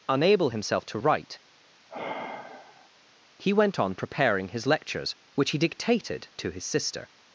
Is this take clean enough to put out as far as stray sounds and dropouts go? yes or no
no